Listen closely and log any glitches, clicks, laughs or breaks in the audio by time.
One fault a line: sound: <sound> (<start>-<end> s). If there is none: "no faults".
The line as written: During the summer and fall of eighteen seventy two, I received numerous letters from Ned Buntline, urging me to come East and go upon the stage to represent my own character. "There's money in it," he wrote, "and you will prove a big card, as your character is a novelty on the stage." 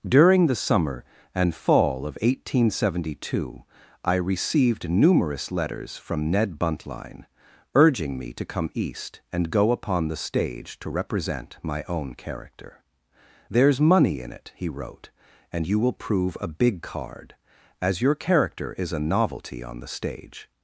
no faults